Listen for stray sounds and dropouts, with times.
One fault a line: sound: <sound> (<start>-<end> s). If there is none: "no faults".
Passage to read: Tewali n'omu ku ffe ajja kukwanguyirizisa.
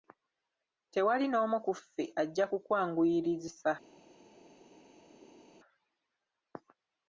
no faults